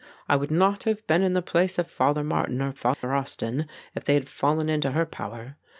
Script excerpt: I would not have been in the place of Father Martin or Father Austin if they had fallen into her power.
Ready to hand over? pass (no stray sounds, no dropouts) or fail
fail